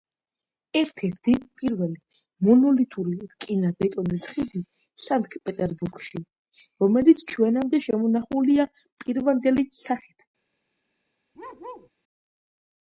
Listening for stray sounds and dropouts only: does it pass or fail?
fail